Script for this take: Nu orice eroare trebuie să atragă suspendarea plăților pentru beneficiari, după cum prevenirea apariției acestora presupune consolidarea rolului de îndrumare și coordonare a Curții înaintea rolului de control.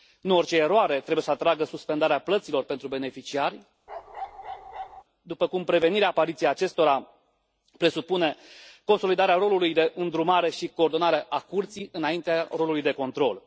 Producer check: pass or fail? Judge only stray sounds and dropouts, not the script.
fail